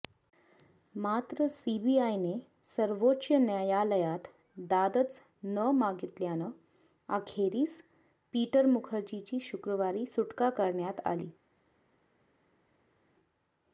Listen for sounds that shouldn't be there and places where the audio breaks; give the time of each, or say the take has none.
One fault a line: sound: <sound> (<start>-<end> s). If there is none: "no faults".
no faults